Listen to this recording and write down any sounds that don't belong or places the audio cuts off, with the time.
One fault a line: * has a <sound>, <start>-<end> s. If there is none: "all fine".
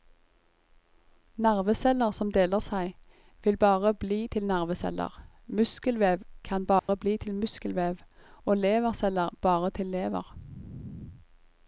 * has a dropout, 6.8-6.9 s